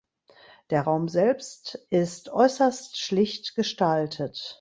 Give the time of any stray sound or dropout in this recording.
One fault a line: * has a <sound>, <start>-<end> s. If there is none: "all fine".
all fine